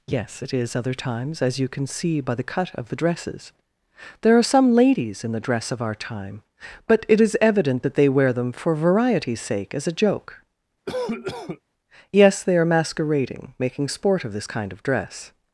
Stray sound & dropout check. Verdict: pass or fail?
fail